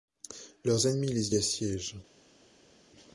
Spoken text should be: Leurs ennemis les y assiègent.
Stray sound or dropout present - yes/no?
no